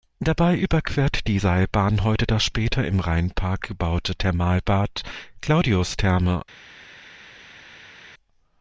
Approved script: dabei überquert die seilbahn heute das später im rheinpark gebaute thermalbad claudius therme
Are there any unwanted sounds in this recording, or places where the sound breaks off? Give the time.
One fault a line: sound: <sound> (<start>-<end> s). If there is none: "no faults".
no faults